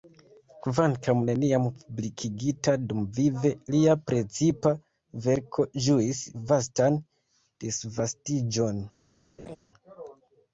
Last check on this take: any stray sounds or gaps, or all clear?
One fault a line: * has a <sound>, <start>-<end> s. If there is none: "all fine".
* has a laugh, 9.4-9.6 s